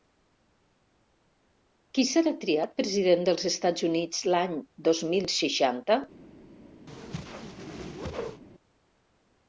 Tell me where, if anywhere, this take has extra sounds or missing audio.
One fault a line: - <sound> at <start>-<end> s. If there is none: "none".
- whoosh at 6.9-8.4 s